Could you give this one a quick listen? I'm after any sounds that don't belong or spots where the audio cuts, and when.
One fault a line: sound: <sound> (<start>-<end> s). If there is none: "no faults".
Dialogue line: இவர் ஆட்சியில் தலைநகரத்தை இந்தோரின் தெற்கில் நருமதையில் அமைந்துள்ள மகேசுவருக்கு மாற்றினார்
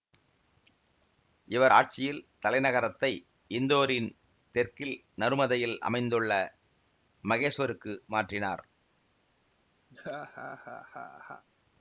sound: laugh (9.9-11.4 s)